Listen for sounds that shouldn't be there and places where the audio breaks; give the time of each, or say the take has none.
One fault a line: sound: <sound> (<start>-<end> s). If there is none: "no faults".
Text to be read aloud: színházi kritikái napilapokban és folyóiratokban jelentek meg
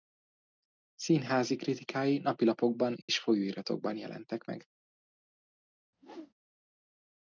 sound: dropout (3.0-3.1 s)
sound: whoosh (5.9-6.3 s)